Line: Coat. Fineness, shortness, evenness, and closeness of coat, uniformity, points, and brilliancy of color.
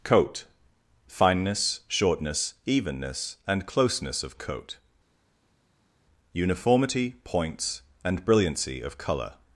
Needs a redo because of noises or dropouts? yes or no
no